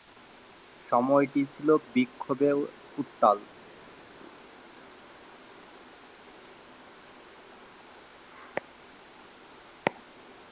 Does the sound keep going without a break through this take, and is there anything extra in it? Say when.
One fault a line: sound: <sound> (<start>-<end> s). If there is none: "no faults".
no faults